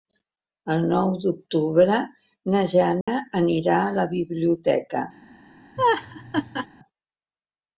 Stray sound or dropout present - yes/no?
yes